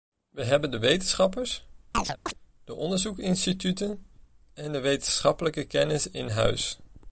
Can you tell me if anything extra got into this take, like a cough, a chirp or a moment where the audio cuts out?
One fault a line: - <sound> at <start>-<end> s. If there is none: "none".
- chirp at 1.9-2.3 s